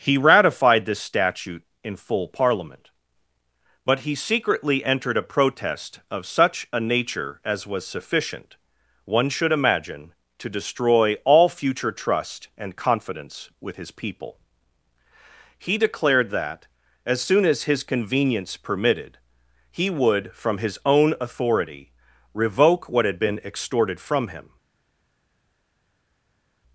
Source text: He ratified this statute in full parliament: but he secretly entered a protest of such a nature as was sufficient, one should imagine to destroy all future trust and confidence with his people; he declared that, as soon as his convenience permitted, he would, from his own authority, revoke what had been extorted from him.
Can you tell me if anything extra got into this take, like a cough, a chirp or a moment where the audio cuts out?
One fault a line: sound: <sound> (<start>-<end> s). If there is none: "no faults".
no faults